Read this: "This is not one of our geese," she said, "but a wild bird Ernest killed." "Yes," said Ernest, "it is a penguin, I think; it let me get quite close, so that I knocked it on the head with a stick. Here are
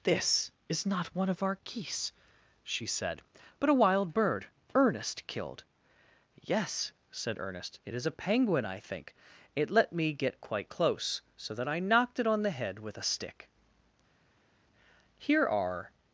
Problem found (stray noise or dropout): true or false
false